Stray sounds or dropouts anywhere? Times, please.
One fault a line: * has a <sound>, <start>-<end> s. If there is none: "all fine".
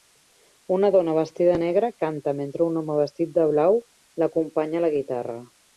all fine